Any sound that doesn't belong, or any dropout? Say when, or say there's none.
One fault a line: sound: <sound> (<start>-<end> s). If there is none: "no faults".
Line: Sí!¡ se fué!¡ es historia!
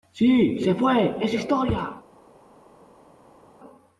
no faults